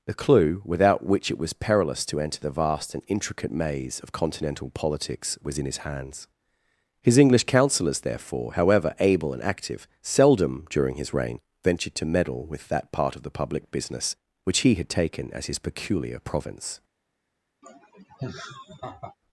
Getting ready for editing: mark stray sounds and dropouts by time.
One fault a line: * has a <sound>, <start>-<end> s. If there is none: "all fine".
* has a laugh, 17.6-19.2 s